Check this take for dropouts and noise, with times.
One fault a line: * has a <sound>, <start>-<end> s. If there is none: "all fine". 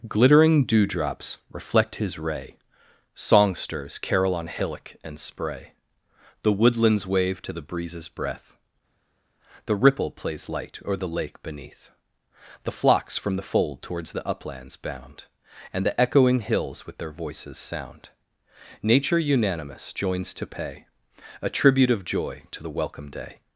all fine